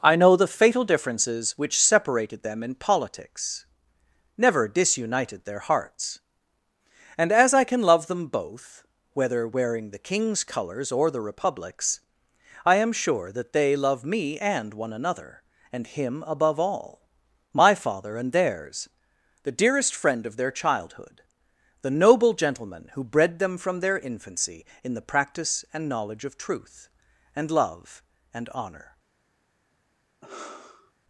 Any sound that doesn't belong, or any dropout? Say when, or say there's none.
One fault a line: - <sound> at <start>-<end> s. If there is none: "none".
- sigh at 30.2-30.9 s